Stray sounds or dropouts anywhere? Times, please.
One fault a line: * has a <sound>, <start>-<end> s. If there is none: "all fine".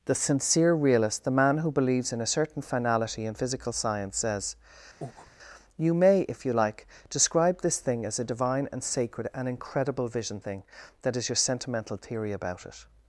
* has a breath, 5.0-5.3 s